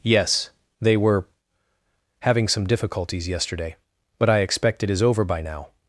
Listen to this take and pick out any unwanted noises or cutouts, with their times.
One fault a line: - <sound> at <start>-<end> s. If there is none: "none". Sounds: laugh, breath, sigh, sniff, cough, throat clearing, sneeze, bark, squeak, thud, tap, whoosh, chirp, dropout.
none